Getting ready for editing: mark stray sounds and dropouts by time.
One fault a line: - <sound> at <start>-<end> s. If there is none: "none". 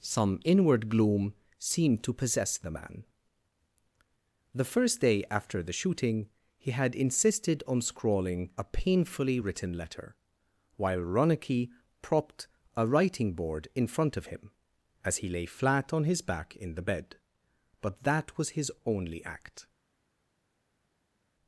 none